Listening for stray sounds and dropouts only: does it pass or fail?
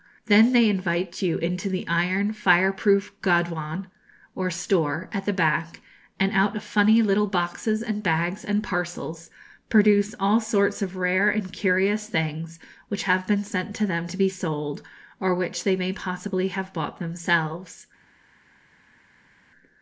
pass